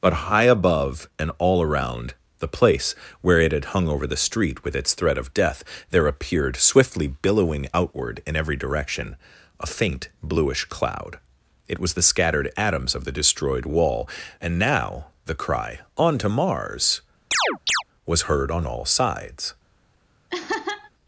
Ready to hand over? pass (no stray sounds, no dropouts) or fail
fail